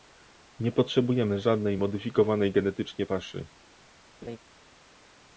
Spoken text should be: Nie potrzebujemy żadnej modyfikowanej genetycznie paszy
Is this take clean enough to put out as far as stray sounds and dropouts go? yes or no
no